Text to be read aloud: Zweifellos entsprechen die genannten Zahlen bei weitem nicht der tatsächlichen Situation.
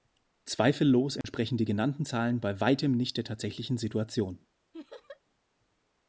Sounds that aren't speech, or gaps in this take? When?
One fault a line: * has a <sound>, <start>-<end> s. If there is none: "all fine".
* has a dropout, 1.2-1.2 s
* has a laugh, 4.7-5.2 s